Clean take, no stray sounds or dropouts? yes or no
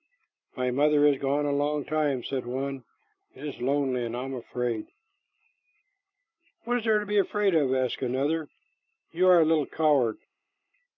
yes